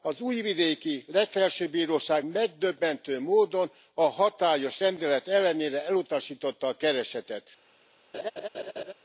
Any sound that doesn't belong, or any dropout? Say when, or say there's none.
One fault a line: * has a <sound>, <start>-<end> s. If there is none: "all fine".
* has a laugh, 8.1-8.9 s